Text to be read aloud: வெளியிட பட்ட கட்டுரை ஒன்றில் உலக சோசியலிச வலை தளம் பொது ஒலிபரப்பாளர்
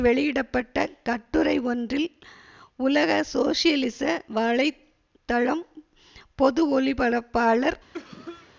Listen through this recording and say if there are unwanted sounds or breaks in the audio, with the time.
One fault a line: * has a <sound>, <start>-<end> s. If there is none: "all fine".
* has a cough, 7.9-8.5 s